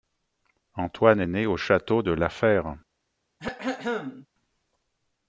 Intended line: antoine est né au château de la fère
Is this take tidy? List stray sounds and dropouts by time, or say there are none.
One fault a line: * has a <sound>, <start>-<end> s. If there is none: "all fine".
* has a throat clearing, 3.4-4.3 s